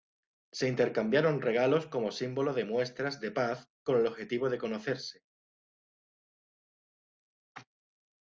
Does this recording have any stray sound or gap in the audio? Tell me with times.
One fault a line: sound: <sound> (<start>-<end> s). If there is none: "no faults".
no faults